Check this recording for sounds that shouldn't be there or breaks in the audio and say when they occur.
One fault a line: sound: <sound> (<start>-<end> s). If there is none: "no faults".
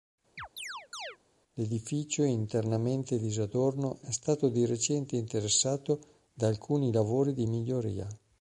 sound: chirp (0.4-1.2 s)